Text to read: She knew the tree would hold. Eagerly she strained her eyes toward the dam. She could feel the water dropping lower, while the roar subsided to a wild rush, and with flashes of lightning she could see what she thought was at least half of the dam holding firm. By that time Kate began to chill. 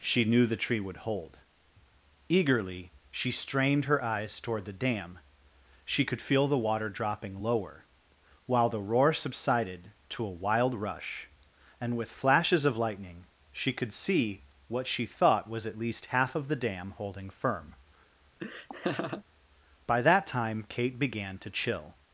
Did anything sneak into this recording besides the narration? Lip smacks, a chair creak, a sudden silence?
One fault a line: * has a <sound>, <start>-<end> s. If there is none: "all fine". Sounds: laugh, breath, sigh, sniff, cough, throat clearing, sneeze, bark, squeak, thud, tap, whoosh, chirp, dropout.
* has a laugh, 18.4-19.2 s